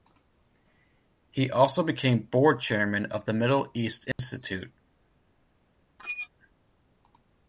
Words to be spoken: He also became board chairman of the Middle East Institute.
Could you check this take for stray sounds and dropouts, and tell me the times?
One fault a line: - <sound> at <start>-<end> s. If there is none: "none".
- dropout at 4.1-4.2 s
- squeak at 6.0-6.3 s